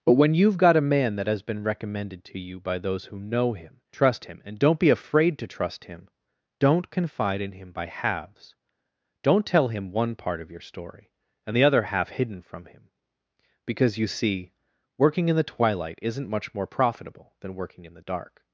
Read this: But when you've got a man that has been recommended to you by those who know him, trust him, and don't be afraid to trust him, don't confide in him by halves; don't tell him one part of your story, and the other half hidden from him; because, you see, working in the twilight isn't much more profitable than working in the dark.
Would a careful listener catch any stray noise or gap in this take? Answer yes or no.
no